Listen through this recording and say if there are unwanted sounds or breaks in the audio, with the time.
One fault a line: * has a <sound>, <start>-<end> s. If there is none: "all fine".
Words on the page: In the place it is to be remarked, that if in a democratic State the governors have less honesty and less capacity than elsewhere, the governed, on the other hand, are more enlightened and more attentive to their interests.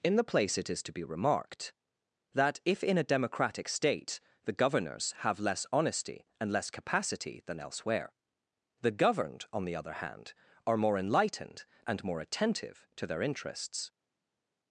all fine